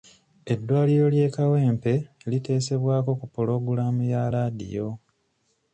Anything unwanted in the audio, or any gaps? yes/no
no